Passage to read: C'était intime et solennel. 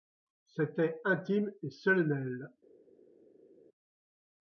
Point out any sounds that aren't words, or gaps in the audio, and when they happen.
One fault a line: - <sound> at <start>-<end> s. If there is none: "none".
none